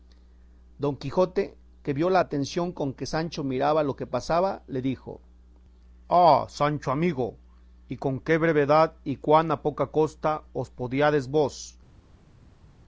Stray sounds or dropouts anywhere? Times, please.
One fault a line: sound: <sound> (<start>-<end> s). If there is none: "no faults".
no faults